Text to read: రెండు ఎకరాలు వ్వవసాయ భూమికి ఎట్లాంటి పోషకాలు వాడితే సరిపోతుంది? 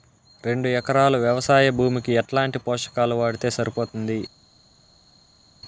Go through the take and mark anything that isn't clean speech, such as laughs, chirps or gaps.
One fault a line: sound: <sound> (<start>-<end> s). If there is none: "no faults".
no faults